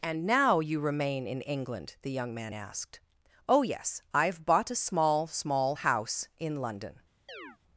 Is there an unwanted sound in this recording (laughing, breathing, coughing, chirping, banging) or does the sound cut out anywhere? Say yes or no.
yes